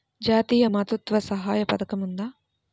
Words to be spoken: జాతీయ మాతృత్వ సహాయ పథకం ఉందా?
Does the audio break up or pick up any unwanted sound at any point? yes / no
no